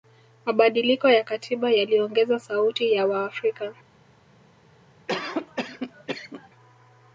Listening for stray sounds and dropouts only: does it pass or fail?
fail